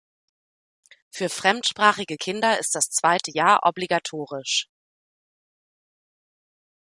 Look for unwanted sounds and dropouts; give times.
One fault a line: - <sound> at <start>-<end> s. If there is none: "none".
none